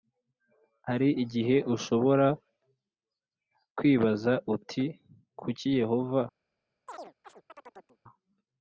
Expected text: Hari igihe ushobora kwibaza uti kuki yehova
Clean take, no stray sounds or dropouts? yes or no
no